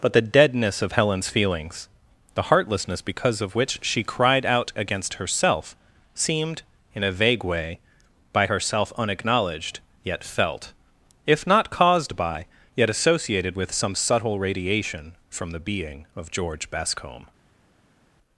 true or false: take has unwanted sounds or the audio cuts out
false